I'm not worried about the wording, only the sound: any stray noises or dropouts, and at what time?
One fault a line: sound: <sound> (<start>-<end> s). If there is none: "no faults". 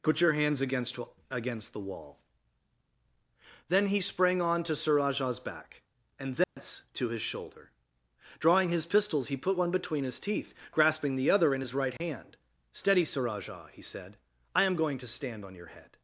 sound: dropout (6.4-6.6 s)
sound: dropout (12.0-12.0 s)